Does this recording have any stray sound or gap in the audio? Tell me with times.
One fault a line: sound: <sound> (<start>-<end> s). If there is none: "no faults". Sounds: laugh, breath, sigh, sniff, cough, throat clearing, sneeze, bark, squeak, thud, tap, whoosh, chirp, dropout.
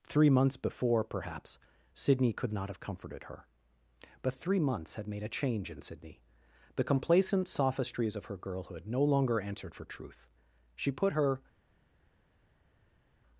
no faults